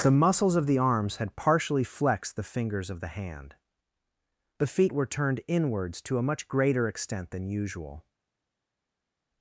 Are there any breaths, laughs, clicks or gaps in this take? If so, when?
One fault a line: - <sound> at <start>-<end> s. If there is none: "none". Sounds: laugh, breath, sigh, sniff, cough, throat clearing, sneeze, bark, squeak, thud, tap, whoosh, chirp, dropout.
none